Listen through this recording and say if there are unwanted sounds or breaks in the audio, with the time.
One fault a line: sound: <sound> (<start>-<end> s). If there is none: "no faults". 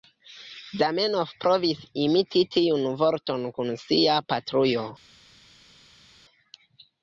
no faults